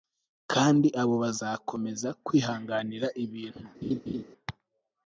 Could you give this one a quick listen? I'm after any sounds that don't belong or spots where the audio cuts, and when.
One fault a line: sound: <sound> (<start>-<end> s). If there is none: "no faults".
sound: laugh (3.8-4.2 s)